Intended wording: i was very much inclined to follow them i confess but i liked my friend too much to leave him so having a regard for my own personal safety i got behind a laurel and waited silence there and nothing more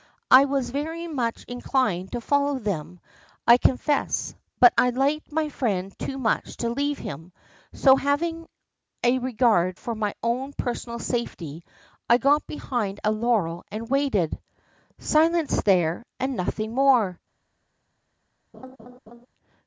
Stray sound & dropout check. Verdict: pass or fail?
fail